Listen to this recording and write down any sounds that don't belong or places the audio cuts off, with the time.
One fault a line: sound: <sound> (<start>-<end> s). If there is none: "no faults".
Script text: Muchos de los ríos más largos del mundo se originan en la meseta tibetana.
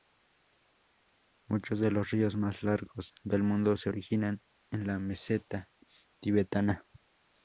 no faults